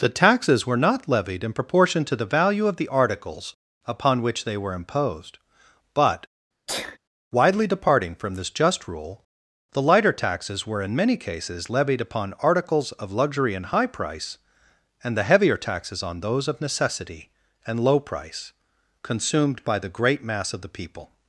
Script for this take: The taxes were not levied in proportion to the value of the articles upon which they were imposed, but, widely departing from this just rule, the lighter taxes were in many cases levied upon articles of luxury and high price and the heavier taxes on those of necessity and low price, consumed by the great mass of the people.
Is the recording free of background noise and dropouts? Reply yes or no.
no